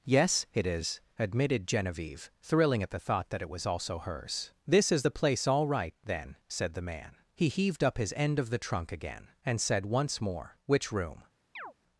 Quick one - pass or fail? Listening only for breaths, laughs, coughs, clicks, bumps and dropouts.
fail